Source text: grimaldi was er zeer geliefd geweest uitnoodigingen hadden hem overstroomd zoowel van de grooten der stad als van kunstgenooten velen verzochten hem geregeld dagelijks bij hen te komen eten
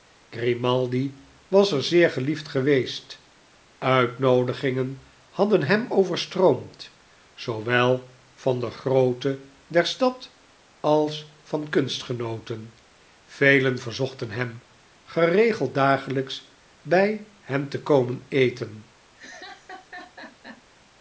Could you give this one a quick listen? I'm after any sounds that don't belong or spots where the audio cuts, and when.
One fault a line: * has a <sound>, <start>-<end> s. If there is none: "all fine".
* has a laugh, 19.2-20.6 s